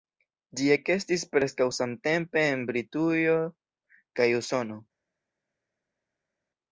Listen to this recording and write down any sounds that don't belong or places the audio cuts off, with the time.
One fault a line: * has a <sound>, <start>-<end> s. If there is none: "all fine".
all fine